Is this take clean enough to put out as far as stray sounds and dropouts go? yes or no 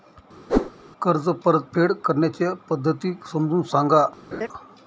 no